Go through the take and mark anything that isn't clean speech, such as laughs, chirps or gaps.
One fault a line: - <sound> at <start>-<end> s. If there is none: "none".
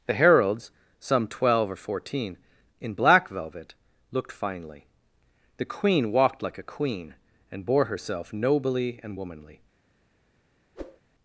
- whoosh at 10.8-11.0 s